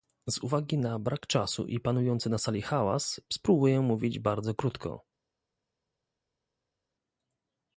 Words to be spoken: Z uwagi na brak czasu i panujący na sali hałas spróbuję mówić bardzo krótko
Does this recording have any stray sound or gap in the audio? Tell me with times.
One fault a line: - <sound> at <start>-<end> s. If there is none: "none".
none